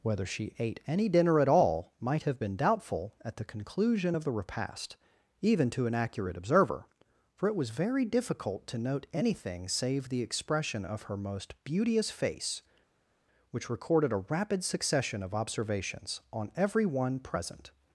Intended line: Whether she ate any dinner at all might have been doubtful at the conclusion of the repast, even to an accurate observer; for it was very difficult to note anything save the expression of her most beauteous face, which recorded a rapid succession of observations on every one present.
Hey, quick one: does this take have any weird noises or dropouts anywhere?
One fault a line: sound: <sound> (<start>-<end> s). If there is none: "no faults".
no faults